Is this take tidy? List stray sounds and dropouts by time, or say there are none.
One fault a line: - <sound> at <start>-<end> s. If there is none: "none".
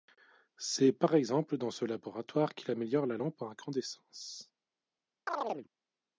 - chirp at 5.3-5.7 s